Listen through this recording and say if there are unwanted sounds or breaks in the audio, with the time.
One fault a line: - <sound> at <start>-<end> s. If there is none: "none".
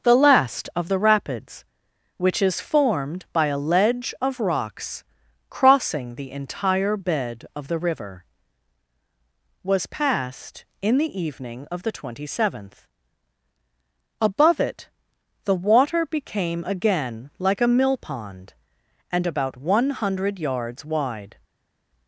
none